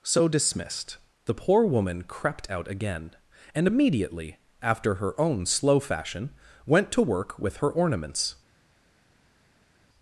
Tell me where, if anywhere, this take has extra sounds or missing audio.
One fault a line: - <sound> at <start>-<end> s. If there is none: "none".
none